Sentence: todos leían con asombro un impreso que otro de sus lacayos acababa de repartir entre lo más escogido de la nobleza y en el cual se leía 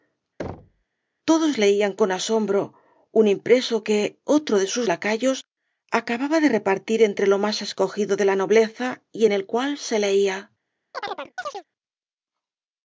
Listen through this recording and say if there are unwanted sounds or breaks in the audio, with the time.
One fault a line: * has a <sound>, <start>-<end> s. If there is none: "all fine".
* has a thud, 0.4-0.8 s
* has a chirp, 10.9-11.6 s